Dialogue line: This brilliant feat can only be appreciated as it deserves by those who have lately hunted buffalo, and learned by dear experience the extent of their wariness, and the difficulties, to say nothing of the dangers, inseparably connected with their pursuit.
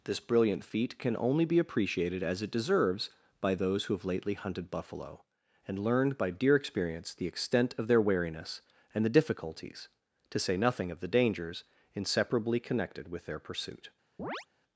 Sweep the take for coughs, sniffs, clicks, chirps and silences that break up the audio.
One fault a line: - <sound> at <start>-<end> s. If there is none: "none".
- chirp at 14.2-14.5 s